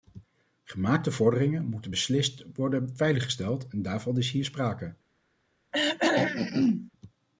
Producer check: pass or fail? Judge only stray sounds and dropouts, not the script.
fail